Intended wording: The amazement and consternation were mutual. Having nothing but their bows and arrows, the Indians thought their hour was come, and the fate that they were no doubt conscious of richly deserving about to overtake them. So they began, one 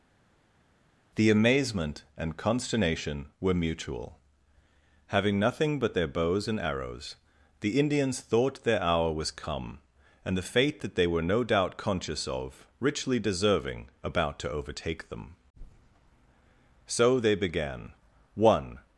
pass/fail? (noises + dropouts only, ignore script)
pass